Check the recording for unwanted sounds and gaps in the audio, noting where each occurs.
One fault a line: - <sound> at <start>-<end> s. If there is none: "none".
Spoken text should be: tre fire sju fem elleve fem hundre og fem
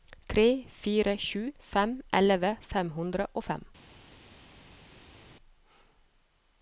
none